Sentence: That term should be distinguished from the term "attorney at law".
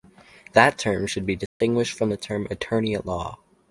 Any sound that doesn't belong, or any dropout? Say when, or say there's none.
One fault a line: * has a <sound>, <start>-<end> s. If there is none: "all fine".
* has a dropout, 1.5-1.6 s